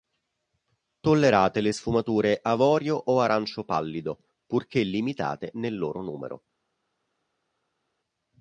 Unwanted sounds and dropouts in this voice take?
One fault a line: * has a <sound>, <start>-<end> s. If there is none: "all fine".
all fine